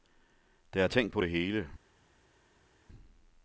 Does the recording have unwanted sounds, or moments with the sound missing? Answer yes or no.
no